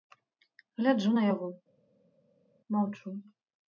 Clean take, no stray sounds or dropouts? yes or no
yes